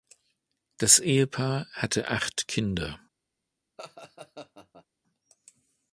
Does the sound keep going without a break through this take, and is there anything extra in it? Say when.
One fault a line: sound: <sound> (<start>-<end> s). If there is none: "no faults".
sound: laugh (3.8-4.9 s)